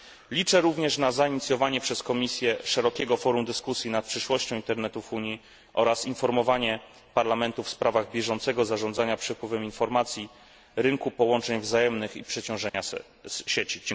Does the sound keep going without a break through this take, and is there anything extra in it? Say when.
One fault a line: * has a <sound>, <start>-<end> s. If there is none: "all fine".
* has a dropout, 12.7-12.7 s